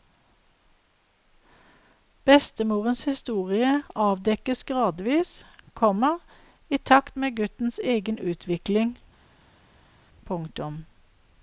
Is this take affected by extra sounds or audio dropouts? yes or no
no